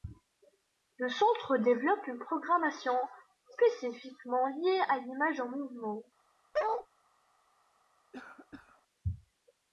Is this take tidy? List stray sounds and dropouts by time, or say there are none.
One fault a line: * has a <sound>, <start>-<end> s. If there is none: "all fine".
* has a bark, 6.5-6.9 s
* has a cough, 8.1-8.8 s